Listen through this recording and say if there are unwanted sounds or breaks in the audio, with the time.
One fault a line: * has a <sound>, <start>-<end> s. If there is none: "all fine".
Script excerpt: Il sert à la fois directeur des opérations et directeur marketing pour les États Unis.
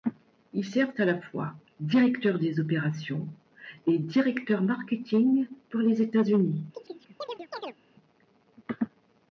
* has a chirp, 6.7-7.8 s